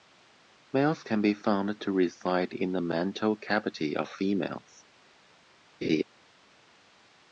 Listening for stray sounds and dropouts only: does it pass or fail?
fail